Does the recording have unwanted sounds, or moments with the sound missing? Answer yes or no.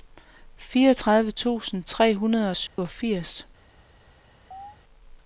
yes